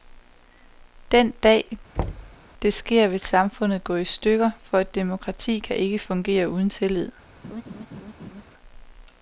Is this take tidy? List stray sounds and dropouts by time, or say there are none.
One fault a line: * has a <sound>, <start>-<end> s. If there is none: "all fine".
* has a thud, 2.0-2.4 s
* has a laugh, 7.4-8.4 s